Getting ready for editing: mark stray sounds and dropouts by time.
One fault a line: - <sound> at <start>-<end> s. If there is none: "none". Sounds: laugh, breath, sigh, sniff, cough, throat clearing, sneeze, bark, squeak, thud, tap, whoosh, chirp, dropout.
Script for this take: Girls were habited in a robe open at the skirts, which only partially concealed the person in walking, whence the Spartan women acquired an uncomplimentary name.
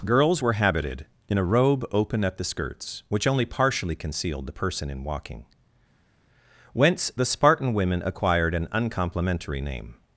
none